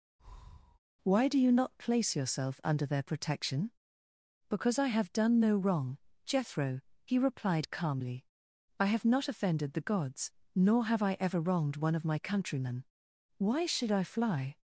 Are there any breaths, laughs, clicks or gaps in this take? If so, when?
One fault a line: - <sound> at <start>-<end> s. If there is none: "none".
- breath at 0.2-0.8 s